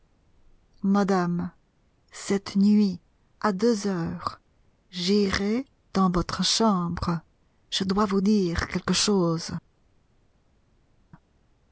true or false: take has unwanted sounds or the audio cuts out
false